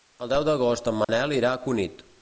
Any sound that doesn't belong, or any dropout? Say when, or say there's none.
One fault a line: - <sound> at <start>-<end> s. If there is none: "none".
- dropout at 1.0-1.1 s